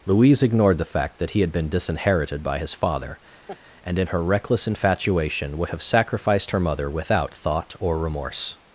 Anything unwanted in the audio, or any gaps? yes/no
yes